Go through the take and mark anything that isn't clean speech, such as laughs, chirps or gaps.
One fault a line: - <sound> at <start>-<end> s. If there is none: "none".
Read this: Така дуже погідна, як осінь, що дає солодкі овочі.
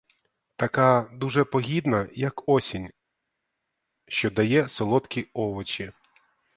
none